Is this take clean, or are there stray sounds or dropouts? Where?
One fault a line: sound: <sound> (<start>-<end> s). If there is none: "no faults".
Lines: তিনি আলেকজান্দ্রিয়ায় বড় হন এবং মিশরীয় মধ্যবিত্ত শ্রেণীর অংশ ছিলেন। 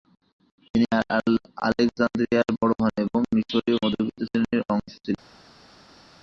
no faults